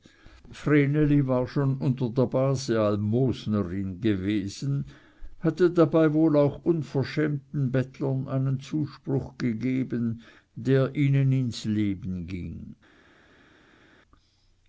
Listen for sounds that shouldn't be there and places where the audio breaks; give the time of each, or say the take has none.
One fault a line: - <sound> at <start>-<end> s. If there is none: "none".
none